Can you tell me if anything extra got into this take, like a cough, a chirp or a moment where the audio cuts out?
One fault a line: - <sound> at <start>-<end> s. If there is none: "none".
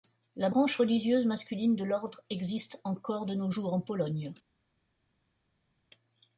none